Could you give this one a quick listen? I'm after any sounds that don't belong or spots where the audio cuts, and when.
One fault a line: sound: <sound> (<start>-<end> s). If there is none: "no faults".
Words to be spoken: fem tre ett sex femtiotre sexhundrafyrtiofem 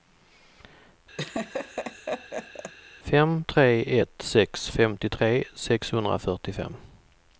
sound: laugh (1.2-2.7 s)